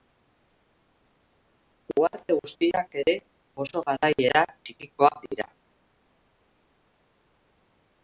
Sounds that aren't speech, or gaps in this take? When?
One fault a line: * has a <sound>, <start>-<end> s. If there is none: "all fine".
all fine